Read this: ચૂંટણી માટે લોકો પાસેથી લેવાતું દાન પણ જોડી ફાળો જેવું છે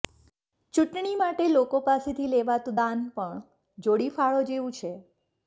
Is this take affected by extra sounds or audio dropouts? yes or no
no